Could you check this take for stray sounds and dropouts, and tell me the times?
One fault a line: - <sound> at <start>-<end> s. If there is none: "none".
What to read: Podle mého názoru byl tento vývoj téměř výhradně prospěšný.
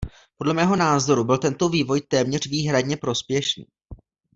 none